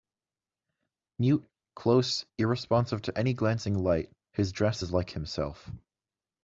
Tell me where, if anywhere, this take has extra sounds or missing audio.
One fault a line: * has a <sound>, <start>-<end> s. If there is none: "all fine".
all fine